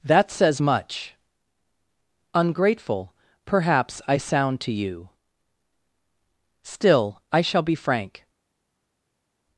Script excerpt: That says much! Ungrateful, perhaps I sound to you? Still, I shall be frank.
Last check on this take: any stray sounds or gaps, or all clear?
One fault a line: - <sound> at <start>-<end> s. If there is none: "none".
none